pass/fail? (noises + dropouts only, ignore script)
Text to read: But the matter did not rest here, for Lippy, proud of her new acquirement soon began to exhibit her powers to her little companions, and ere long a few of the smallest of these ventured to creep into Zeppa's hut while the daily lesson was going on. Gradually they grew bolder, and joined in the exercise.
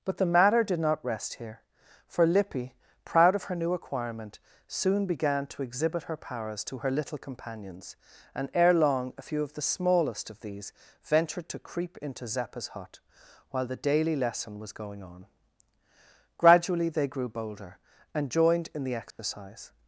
fail